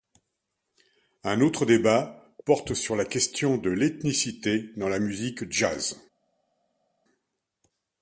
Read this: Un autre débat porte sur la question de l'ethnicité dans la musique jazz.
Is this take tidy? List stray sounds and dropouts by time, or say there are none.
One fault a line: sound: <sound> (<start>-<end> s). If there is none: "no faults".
no faults